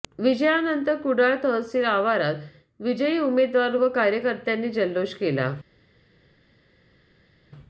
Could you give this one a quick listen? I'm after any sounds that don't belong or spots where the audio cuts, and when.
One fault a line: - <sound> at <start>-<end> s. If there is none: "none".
none